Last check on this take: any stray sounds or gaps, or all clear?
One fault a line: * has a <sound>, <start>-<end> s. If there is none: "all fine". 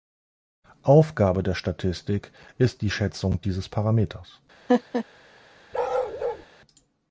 * has a laugh, 4.7-5.0 s
* has a bark, 5.7-6.5 s